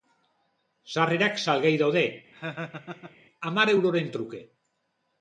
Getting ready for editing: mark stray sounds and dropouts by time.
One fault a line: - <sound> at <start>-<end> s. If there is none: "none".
- laugh at 2.3-3.2 s